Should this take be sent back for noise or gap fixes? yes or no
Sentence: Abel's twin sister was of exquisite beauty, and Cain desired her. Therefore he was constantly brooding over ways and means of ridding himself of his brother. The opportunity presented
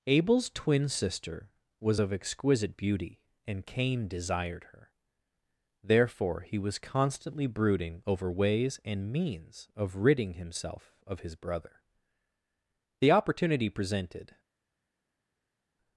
no